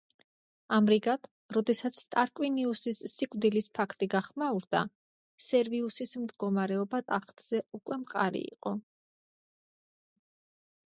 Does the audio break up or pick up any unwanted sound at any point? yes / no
no